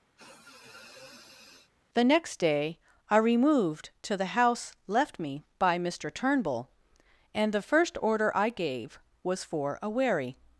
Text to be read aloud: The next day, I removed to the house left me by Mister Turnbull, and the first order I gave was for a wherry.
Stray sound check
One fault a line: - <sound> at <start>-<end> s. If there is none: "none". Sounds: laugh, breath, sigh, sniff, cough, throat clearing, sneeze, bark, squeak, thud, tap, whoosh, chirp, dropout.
- sniff at 0.2-1.7 s